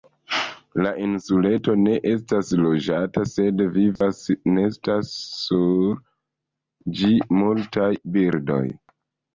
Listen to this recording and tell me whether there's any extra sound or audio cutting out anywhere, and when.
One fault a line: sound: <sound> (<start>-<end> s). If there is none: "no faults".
sound: dropout (4.0-4.0 s)